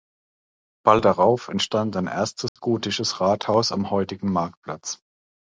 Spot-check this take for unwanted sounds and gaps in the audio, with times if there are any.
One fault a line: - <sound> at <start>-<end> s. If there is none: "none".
- dropout at 2.5-2.6 s